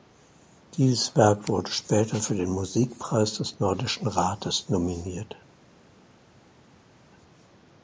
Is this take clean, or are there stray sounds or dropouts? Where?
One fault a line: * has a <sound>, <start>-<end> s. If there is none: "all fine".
all fine